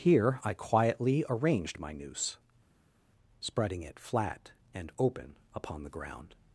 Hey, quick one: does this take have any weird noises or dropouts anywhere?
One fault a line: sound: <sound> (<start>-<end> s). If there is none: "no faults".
no faults